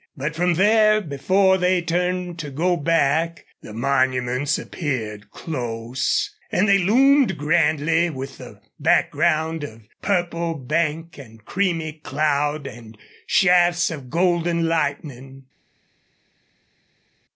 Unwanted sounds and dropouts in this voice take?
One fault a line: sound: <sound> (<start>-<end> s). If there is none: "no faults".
no faults